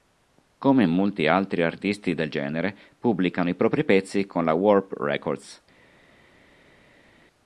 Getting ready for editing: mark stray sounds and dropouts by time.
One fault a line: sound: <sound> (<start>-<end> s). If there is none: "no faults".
no faults